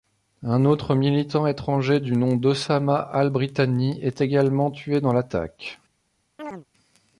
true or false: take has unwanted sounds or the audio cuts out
true